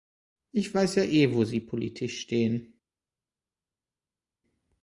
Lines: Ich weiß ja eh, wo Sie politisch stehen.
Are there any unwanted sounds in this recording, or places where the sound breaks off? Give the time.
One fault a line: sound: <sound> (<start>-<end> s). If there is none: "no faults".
no faults